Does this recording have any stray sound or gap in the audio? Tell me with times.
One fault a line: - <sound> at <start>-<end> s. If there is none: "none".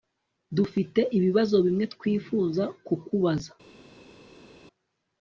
none